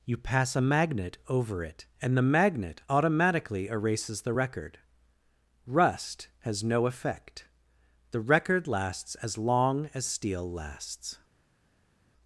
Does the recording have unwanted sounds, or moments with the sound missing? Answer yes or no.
no